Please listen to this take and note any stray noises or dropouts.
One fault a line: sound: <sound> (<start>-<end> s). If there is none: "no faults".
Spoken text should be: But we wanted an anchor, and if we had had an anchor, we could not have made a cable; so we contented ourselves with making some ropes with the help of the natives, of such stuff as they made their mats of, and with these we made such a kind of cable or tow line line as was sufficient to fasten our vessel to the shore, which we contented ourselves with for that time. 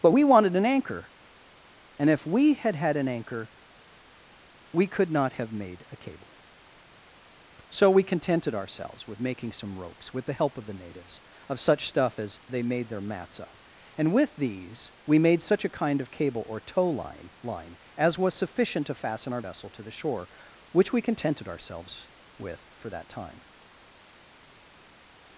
no faults